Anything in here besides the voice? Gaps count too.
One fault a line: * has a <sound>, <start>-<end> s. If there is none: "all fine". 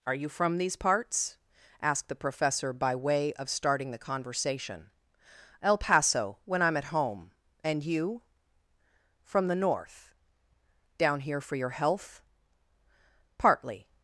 all fine